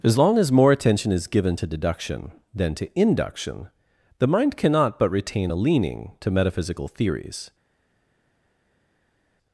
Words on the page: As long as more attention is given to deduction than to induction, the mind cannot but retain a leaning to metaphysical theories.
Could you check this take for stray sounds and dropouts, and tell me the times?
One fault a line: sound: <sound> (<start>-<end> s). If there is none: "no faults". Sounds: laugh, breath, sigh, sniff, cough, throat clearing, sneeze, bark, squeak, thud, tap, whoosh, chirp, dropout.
no faults